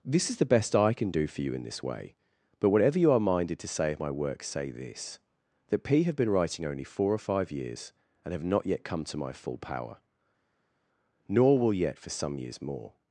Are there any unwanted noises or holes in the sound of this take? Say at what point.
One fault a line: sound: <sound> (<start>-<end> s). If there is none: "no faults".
no faults